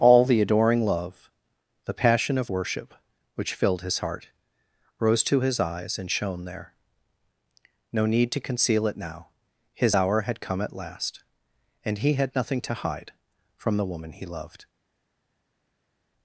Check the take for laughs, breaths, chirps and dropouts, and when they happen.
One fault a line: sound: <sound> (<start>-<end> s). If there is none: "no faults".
no faults